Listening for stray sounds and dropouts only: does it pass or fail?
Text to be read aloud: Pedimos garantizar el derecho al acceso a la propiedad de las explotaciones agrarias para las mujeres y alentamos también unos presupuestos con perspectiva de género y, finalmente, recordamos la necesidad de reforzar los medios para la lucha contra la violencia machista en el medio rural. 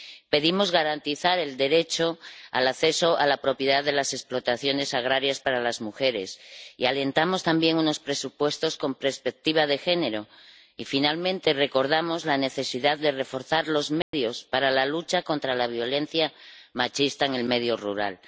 fail